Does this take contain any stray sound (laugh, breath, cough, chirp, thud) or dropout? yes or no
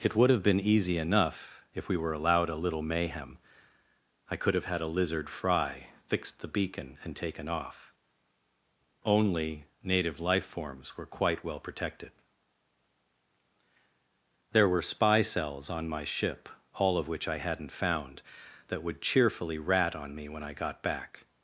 no